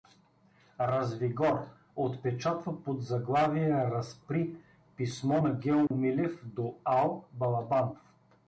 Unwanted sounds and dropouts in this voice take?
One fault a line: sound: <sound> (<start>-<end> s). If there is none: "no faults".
sound: dropout (5.9-5.9 s)